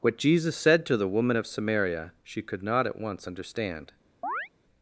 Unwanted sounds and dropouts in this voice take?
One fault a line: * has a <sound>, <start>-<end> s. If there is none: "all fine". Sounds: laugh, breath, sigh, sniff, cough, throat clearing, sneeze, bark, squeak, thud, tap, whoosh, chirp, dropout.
* has a chirp, 4.2-4.5 s